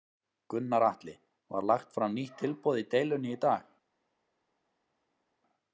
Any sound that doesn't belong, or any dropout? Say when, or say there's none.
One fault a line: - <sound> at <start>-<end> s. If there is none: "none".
none